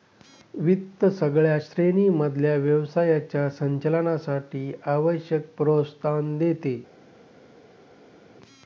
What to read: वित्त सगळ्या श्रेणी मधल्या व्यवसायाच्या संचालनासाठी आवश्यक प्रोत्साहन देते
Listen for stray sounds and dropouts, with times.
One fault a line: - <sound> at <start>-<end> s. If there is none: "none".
none